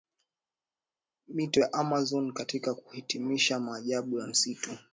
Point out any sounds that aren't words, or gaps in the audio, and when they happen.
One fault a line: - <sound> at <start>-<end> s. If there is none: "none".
none